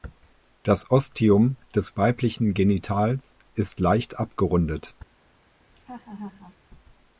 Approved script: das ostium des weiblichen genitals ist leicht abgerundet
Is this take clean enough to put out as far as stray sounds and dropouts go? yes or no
no